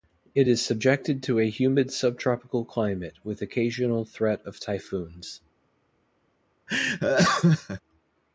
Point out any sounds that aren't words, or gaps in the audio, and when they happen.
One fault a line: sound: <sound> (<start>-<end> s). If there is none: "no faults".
sound: laugh (6.7-7.8 s)